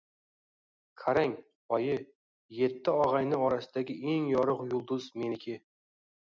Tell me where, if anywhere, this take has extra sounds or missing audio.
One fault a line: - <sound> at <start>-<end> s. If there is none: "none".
none